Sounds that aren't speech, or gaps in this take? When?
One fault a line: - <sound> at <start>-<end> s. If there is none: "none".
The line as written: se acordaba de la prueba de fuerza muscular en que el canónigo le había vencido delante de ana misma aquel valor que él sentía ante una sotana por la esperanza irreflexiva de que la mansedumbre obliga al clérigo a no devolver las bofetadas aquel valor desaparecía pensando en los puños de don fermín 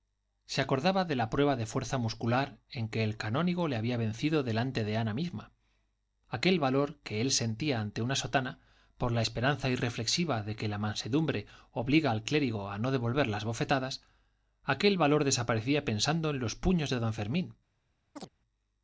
- chirp at 18.2-18.3 s